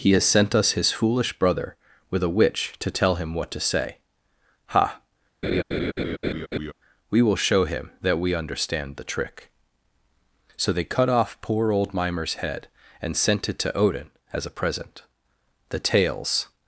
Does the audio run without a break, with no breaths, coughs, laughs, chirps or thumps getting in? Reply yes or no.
no